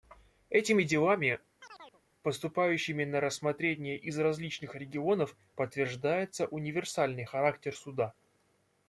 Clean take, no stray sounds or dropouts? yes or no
no